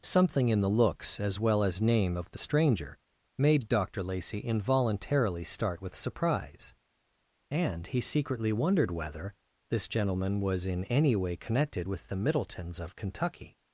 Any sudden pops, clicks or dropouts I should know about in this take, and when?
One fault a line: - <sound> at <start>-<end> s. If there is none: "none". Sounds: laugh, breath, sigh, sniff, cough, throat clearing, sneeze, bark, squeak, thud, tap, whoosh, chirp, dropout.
none